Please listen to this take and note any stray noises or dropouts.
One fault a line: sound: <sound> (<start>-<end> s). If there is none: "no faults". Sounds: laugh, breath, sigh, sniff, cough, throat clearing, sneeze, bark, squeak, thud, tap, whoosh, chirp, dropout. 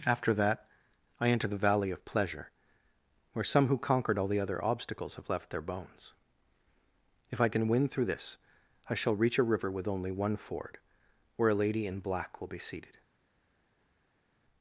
no faults